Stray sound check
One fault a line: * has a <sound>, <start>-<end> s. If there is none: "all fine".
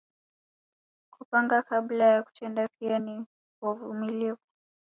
all fine